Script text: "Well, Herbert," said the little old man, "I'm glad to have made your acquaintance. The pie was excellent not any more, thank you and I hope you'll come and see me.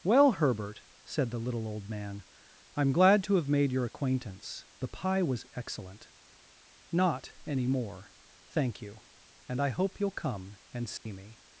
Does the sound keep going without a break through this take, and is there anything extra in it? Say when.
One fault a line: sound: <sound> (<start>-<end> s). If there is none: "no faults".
sound: dropout (11.0-11.1 s)